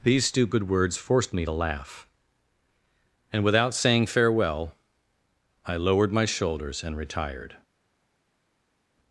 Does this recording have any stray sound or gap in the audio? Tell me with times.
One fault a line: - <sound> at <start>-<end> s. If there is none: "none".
none